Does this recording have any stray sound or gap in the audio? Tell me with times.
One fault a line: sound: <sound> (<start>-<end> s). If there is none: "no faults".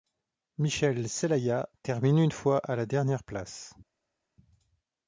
no faults